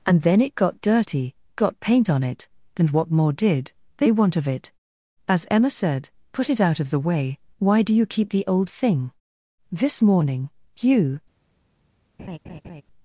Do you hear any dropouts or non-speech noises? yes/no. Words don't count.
yes